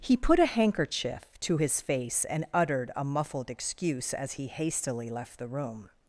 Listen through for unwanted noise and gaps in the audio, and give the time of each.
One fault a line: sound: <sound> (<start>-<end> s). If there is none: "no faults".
no faults